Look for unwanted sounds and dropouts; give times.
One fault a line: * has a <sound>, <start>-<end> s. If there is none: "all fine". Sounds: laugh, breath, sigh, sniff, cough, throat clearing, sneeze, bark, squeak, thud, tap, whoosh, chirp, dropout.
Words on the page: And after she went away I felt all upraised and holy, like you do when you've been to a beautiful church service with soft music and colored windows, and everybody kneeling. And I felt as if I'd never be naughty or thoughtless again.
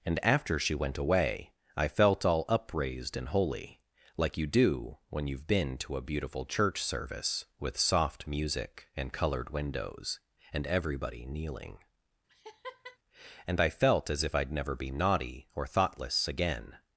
* has a laugh, 12.3-13.0 s